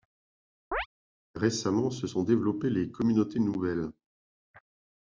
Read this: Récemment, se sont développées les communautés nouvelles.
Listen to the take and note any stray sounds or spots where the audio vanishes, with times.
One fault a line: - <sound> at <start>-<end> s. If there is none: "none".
- chirp at 0.7-0.9 s